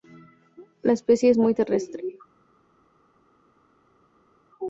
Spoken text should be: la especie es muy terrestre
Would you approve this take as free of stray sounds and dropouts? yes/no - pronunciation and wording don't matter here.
yes